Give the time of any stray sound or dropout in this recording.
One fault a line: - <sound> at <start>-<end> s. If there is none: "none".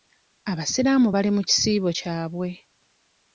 none